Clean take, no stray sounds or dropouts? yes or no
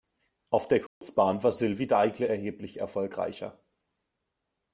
no